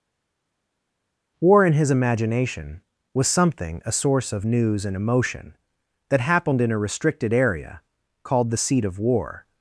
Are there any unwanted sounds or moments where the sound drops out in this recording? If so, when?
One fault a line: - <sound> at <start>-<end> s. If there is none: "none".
none